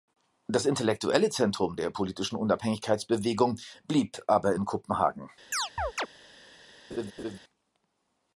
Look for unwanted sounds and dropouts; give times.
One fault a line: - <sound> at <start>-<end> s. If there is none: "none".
- chirp at 5.5-6.1 s
- laugh at 6.9-7.4 s